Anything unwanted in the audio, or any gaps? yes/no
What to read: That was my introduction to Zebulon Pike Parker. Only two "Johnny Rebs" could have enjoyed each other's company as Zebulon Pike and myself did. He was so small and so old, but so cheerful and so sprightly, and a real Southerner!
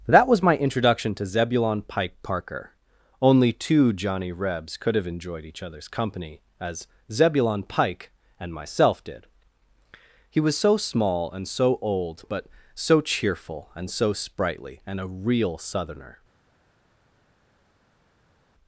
no